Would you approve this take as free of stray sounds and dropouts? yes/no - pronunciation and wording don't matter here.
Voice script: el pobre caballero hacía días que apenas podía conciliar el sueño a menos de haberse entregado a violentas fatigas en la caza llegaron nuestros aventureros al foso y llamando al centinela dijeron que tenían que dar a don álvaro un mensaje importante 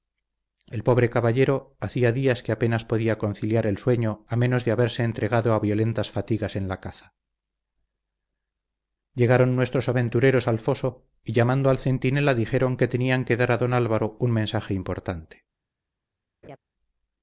no